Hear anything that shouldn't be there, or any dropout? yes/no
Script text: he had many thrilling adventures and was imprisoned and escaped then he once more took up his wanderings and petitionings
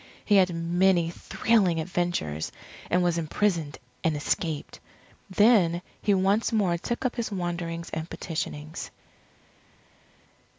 no